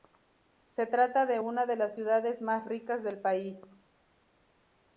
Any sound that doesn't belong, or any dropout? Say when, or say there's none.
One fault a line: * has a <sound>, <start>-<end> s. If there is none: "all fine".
all fine